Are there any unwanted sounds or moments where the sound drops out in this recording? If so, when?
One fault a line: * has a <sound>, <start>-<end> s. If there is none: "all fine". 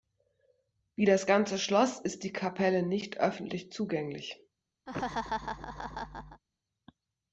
* has a laugh, 4.9-6.4 s